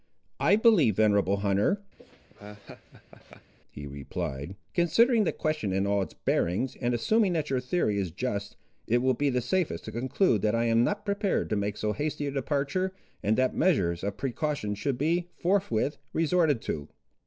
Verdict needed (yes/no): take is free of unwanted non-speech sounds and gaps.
no